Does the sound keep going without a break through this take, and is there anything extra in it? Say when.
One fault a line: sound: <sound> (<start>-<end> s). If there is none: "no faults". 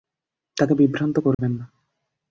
sound: dropout (1.3-1.4 s)